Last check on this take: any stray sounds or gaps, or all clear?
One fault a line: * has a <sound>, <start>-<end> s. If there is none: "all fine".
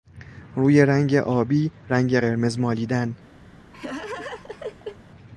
* has a laugh, 3.7-5.0 s